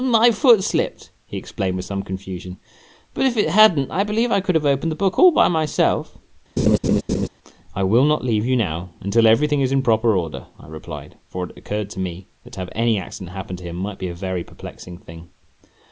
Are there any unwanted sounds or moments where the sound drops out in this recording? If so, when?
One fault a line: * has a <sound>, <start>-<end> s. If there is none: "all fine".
* has a laugh, 6.6-7.3 s